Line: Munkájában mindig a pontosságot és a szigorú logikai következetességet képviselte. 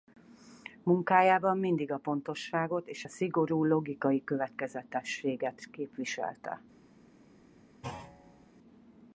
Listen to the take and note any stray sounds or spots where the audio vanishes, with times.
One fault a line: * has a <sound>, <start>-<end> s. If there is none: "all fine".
* has a thud, 7.8-8.5 s